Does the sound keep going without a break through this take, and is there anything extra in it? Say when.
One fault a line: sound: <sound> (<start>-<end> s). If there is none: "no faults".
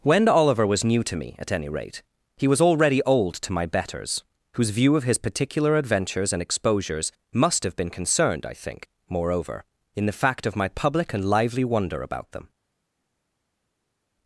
no faults